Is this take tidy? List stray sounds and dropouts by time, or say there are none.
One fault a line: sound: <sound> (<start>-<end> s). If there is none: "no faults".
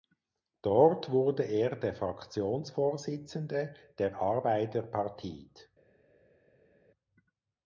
no faults